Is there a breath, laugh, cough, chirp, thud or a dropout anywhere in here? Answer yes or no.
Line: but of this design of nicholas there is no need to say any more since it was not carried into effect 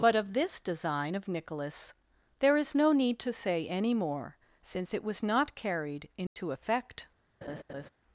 yes